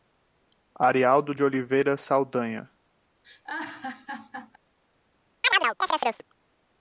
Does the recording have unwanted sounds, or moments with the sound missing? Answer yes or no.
yes